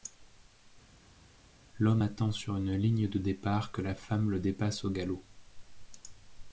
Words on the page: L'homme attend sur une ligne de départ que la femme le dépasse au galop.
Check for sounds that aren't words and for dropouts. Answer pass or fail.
pass